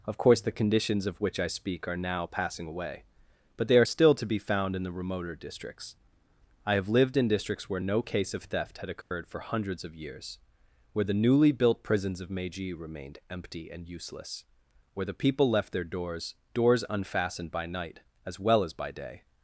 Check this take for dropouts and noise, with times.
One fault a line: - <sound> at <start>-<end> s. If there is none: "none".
- dropout at 9.0-9.1 s